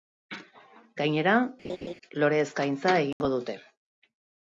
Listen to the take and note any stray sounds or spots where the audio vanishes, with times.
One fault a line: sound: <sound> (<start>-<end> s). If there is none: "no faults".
sound: laugh (1.6-1.9 s)
sound: dropout (3.1-3.2 s)